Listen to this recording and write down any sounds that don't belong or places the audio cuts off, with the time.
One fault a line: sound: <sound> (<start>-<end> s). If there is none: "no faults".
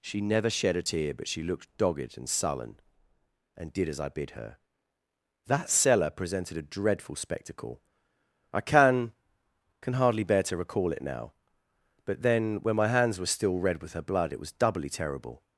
no faults